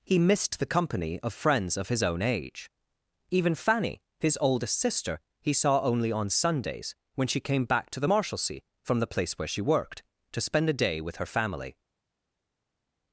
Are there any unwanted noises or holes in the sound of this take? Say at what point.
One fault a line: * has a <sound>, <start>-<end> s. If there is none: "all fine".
all fine